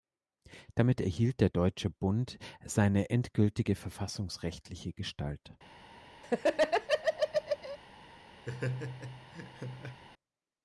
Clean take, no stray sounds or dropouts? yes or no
no